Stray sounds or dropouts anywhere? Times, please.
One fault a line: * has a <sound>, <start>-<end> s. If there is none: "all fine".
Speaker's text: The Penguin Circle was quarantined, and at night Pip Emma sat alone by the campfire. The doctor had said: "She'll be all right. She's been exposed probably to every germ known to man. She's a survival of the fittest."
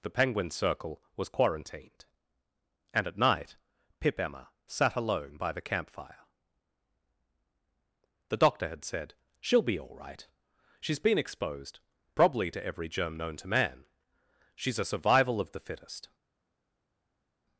all fine